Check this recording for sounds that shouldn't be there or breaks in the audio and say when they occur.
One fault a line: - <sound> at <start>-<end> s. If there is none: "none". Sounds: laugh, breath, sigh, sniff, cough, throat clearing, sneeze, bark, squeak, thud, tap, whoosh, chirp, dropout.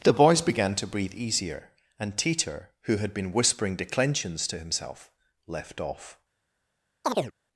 - chirp at 7.0-7.3 s